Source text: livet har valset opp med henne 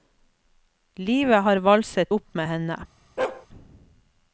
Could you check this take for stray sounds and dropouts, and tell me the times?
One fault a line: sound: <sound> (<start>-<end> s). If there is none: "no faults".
sound: bark (3.2-3.5 s)